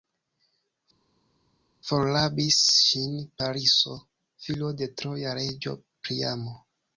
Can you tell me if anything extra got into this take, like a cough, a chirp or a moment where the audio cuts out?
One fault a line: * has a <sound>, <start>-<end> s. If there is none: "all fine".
all fine